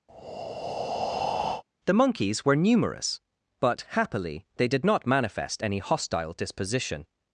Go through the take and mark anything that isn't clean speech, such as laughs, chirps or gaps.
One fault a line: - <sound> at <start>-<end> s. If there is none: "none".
- breath at 0.1-1.6 s